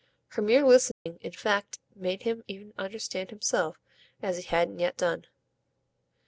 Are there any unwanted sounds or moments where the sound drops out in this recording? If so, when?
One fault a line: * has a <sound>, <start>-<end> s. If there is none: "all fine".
* has a dropout, 0.9-1.1 s